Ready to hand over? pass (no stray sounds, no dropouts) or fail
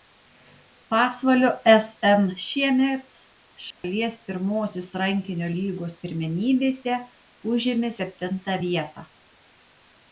fail